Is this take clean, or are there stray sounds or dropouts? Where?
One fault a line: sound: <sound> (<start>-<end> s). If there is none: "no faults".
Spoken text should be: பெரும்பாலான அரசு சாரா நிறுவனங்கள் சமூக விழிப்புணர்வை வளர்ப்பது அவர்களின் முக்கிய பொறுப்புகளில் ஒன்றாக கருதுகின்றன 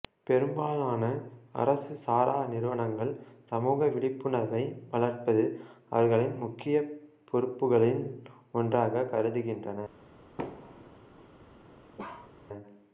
sound: thud (10.4-11.0 s)
sound: bark (12.0-12.3 s)